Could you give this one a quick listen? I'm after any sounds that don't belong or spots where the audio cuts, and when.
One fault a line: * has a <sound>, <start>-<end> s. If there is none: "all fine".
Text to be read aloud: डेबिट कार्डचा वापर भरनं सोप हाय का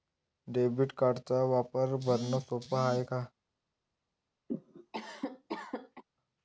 * has a cough, 4.5-6.0 s